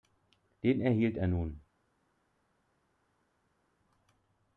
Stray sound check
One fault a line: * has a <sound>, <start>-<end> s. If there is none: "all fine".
all fine